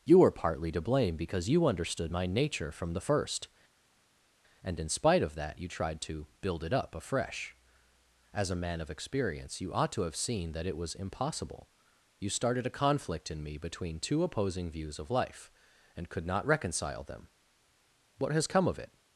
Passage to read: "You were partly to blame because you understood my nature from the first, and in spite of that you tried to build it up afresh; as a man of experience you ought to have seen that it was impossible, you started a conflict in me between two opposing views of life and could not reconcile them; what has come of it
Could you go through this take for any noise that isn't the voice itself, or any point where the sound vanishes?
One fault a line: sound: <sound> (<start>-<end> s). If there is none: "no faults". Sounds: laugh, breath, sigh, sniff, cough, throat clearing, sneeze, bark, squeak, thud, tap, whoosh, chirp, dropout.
no faults